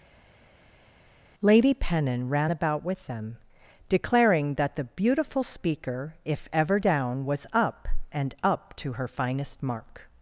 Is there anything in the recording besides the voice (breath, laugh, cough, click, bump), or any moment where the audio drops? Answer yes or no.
no